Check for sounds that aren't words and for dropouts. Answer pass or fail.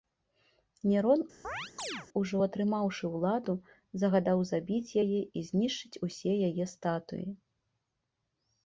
fail